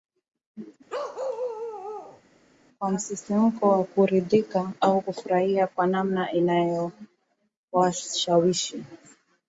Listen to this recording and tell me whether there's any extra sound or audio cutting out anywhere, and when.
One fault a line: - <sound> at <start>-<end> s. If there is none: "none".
- bark at 0.9-2.2 s